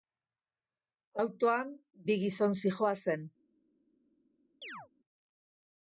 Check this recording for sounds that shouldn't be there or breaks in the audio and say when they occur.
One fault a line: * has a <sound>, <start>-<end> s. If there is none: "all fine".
* has a chirp, 4.6-4.9 s